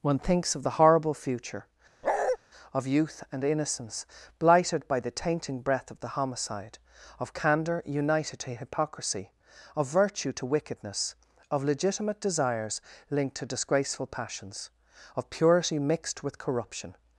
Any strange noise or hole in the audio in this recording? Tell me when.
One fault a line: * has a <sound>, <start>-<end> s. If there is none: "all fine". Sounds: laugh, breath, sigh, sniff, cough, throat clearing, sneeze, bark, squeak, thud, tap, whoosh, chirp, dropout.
* has a bark, 2.0-2.4 s